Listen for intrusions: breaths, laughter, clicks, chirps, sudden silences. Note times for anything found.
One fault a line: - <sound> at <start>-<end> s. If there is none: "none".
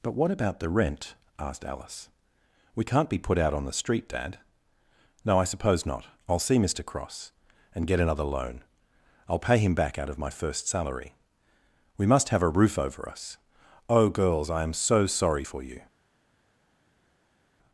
none